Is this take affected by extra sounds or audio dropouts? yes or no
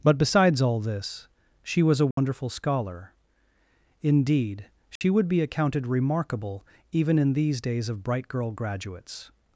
yes